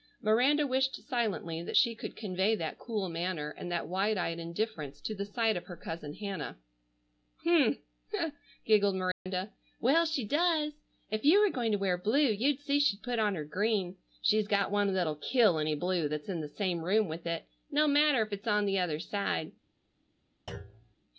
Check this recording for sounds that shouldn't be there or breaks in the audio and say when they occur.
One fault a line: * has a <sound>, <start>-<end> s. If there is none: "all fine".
* has a dropout, 9.1-9.3 s
* has a thud, 20.5-20.9 s